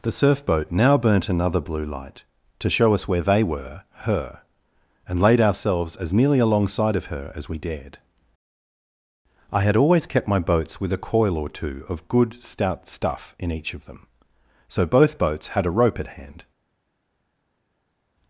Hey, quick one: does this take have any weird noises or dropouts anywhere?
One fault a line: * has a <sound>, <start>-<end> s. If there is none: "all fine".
all fine